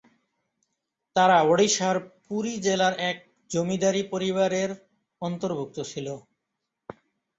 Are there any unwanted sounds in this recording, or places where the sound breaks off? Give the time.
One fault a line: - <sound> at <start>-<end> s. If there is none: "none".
none